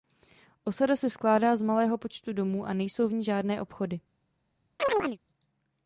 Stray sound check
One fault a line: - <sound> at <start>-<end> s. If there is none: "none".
- chirp at 4.8-5.2 s